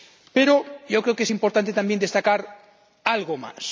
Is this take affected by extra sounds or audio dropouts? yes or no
no